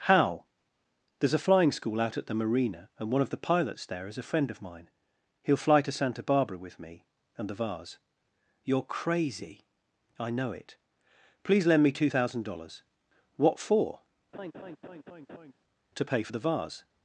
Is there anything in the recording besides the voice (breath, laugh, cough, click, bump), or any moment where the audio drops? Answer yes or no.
yes